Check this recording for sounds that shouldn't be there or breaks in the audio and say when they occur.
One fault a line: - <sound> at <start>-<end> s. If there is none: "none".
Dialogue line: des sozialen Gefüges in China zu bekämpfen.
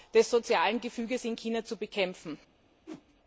- whoosh at 2.9-3.0 s